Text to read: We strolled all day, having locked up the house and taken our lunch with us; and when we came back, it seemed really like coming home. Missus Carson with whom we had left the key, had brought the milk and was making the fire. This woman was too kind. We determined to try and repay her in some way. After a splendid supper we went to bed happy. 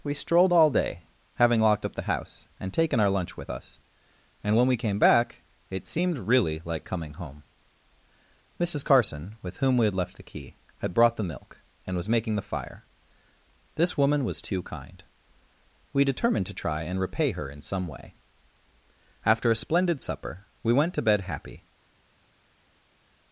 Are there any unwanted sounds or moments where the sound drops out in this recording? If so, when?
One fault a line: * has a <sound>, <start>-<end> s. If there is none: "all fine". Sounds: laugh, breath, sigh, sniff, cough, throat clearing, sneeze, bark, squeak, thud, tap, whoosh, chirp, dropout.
all fine